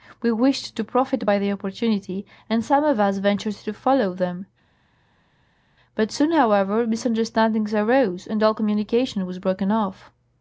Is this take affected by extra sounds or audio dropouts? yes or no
no